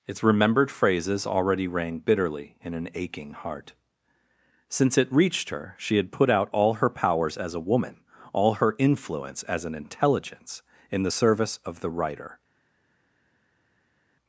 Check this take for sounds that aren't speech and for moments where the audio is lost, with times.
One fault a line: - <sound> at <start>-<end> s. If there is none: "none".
none